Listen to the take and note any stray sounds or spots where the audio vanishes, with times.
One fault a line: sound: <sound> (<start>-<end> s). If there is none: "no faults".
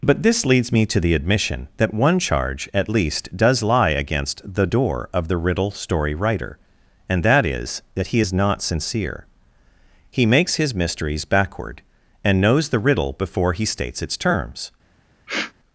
sound: sniff (15.3-15.5 s)